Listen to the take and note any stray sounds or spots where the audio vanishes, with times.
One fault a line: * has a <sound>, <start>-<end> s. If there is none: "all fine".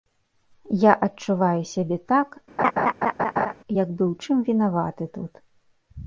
* has a laugh, 2.6-3.5 s